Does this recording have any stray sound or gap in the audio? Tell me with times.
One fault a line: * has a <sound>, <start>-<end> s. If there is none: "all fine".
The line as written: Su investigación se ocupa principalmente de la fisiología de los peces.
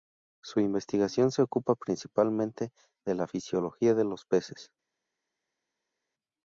all fine